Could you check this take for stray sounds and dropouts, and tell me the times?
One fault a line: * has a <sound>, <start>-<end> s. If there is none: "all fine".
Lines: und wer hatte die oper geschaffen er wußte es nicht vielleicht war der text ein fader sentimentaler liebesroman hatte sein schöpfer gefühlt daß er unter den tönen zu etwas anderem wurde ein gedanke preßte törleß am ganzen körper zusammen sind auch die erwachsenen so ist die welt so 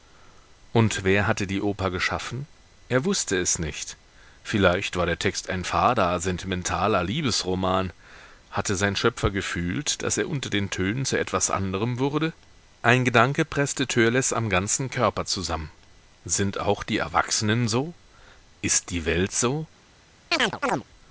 * has a chirp, 20.3-20.8 s